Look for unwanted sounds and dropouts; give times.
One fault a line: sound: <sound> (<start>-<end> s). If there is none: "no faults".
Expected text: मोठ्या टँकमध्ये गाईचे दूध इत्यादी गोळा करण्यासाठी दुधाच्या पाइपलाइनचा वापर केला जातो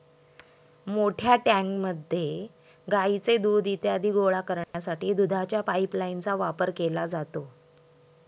sound: dropout (4.6-4.7 s)